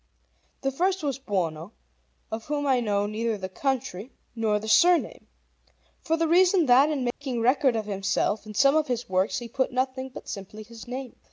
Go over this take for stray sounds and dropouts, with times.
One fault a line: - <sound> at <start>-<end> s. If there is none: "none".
- dropout at 7.1-7.2 s